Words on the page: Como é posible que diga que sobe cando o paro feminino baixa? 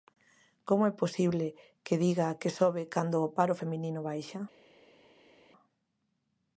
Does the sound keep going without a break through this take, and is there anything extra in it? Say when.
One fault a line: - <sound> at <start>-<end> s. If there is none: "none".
none